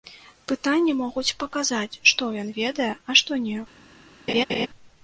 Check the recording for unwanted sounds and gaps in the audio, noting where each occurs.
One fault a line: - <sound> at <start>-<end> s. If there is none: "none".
- laugh at 4.3-4.7 s